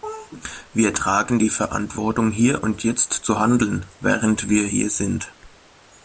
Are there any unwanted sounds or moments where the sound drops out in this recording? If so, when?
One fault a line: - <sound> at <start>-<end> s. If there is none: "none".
none